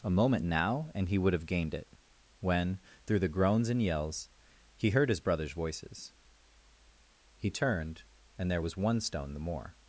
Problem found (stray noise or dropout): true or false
false